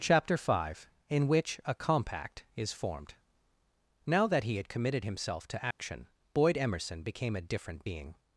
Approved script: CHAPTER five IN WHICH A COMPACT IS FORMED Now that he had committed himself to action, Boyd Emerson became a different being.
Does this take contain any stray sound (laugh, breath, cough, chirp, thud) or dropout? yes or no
yes